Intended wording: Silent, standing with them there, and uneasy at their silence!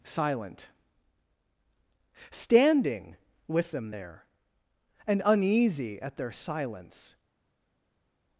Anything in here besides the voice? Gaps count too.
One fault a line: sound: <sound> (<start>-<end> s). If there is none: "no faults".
no faults